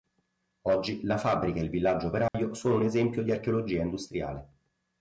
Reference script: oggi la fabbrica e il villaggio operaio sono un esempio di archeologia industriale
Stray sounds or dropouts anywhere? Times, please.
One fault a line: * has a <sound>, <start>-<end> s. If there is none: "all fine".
* has a dropout, 2.3-2.3 s